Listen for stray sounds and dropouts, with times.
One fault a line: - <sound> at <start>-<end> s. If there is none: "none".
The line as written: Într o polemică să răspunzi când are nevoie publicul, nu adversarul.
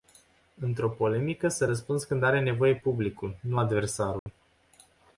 - dropout at 4.2-4.3 s